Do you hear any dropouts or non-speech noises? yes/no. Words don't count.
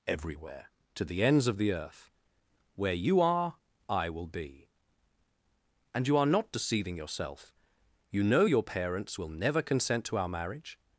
no